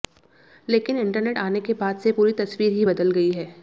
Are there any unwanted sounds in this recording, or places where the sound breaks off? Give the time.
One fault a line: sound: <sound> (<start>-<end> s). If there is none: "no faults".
no faults